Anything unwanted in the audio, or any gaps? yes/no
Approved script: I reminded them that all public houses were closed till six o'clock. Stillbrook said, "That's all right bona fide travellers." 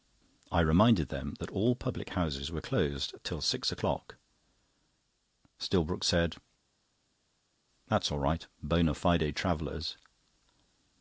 no